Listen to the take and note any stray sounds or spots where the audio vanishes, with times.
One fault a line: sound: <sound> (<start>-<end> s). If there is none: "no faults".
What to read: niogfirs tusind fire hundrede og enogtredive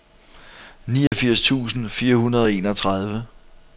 sound: dropout (1.1-1.1 s)